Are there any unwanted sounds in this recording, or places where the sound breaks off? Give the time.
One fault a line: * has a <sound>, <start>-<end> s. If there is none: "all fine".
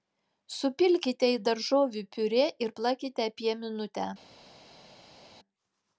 all fine